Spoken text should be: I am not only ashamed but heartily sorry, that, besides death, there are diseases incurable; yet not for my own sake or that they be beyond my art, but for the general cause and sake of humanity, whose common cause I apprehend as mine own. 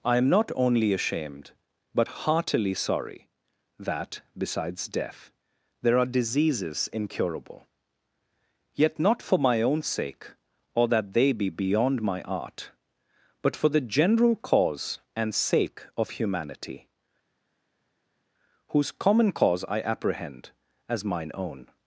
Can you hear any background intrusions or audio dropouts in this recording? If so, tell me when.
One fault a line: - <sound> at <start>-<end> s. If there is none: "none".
none